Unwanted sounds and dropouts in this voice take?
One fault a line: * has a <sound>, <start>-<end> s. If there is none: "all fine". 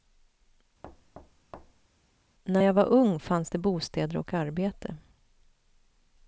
* has a thud, 0.8-1.9 s